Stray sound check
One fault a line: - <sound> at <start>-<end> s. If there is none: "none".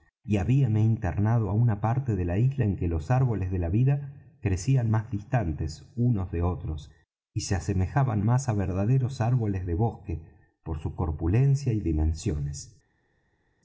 none